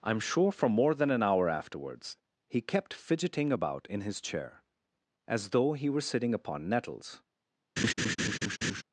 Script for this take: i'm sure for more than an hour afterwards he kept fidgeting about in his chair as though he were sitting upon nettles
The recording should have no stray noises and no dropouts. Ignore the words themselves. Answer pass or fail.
fail